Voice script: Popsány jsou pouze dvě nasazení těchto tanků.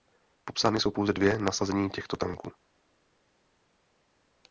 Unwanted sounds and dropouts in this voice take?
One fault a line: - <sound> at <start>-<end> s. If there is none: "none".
none